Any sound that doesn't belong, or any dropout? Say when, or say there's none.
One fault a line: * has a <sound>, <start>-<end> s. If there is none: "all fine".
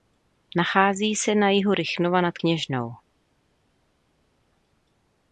all fine